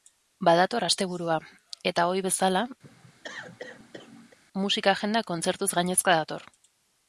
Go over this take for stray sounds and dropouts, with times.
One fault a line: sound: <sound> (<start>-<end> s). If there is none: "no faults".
sound: cough (2.8-4.4 s)